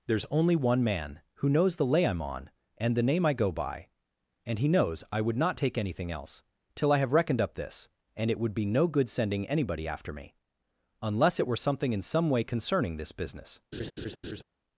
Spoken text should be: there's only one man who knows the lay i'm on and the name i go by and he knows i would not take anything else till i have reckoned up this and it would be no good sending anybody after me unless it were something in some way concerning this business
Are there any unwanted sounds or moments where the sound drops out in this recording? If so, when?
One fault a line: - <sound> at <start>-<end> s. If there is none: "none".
- laugh at 13.7-14.4 s